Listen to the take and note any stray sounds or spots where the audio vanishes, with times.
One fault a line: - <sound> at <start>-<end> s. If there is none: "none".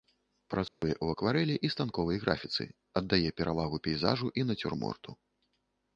- dropout at 0.7-0.8 s